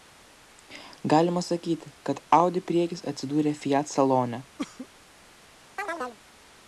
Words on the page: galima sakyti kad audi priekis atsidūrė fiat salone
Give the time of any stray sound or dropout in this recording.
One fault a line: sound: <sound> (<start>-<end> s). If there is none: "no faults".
sound: cough (4.6-4.9 s)
sound: chirp (5.8-6.2 s)